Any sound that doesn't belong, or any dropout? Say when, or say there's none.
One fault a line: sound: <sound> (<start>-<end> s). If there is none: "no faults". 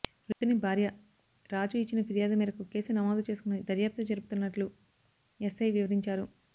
sound: dropout (0.3-0.4 s)